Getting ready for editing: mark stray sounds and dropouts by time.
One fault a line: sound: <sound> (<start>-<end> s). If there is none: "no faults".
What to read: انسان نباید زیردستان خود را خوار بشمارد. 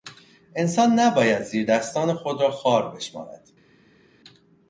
no faults